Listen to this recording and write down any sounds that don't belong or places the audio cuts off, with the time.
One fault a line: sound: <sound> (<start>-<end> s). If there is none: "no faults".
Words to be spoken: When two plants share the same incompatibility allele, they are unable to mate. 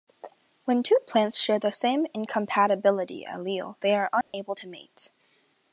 sound: dropout (4.2-4.3 s)